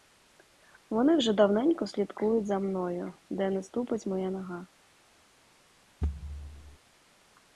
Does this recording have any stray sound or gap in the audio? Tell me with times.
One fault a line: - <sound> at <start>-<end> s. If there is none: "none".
- thud at 6.0-6.8 s